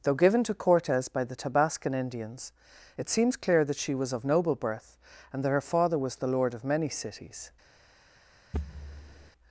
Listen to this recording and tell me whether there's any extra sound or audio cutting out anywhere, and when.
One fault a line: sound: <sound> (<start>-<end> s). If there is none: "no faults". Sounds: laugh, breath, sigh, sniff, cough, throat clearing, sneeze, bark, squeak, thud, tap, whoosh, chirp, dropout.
sound: thud (8.5-9.3 s)